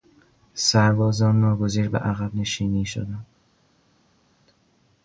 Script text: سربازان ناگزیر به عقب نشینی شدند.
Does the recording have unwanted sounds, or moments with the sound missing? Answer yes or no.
no